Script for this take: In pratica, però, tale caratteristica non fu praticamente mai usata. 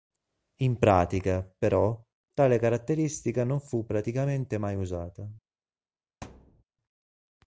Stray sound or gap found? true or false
true